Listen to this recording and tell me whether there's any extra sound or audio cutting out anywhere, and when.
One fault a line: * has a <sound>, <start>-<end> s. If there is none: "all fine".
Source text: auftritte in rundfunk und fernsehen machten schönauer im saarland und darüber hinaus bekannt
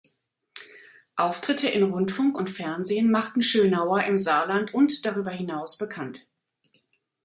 all fine